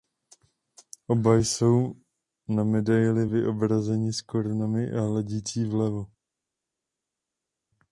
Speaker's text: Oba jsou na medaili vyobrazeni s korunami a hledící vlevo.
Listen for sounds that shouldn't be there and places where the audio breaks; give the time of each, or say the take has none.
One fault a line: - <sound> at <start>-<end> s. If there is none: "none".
none